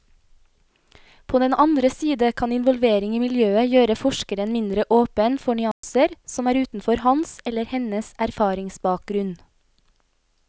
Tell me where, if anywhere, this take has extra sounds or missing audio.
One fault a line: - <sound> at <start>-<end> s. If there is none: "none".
- dropout at 5.7-5.8 s